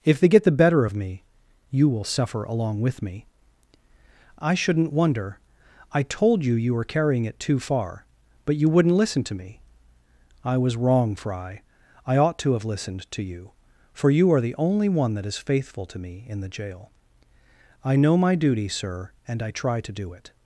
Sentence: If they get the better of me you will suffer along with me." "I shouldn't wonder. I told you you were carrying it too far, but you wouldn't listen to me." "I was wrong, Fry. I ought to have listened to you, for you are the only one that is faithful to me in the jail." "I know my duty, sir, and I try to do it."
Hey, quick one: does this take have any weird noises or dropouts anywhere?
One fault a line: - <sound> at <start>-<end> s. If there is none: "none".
none